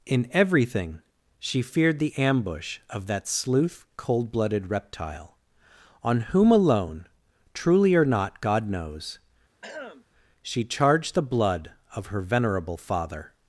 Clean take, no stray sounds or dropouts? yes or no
no